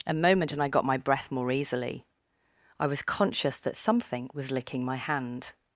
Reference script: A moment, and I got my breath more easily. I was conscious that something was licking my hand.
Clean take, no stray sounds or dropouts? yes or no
yes